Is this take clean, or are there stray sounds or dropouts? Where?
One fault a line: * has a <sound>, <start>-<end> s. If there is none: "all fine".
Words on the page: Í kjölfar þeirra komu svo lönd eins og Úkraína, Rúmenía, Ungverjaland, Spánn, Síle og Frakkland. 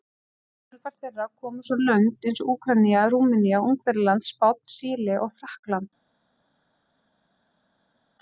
all fine